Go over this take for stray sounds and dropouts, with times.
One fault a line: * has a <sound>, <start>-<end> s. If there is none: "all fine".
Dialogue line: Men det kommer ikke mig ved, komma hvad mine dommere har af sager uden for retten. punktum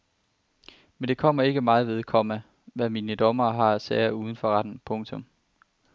all fine